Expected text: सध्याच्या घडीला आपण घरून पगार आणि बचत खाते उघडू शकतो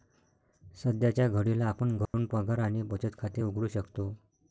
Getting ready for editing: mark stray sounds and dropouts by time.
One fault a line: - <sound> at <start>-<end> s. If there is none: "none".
- dropout at 2.1-2.1 s